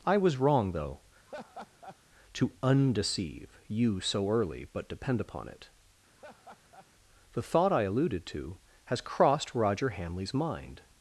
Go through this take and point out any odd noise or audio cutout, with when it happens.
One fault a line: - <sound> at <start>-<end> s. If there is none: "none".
- laugh at 1.2-2.0 s
- laugh at 6.1-6.9 s